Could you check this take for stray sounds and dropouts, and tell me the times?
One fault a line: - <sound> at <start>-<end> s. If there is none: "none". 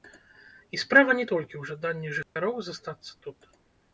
- dropout at 2.2-2.4 s